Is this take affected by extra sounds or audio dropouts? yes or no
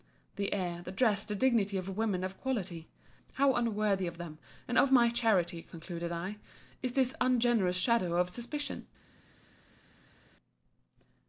no